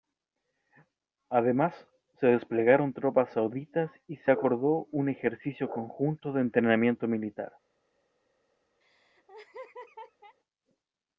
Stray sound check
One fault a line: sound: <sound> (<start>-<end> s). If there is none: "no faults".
sound: laugh (8.8-10.4 s)